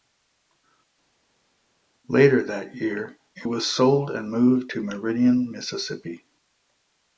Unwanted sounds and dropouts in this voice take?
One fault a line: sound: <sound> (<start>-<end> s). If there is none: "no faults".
no faults